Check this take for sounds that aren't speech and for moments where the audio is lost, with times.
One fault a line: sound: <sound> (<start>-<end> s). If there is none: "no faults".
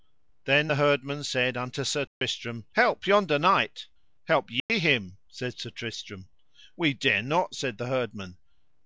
sound: dropout (2.1-2.2 s)
sound: dropout (4.6-4.7 s)